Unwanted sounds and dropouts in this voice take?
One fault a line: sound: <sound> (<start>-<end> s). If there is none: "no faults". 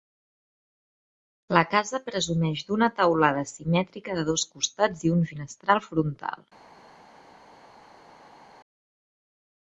no faults